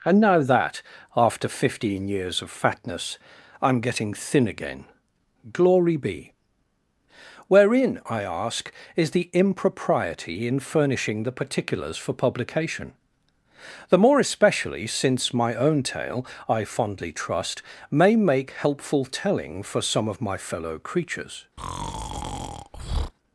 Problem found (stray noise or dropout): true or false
true